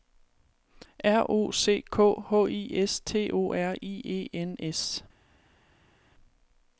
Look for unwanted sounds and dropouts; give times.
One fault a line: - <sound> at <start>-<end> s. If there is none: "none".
none